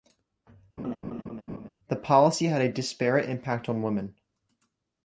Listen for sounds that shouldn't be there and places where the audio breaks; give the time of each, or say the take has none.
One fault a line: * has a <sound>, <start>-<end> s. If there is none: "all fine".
* has a laugh, 0.8-1.7 s